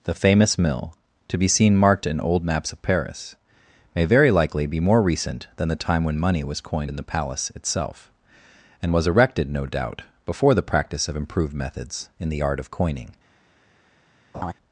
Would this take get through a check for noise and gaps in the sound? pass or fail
fail